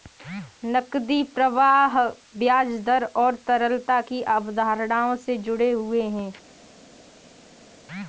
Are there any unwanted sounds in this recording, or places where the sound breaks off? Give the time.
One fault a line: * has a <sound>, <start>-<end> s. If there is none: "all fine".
all fine